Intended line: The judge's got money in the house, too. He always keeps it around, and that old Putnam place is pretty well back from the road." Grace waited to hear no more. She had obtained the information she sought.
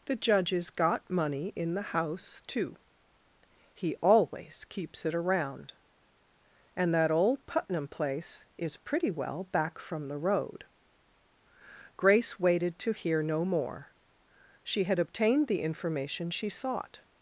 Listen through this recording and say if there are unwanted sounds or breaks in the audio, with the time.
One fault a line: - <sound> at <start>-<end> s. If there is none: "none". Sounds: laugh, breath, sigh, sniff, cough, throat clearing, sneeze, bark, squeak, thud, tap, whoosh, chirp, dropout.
none